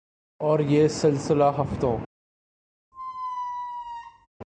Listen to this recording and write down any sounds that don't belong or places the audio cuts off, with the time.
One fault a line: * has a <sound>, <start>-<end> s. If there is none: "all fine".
* has a squeak, 2.9-4.3 s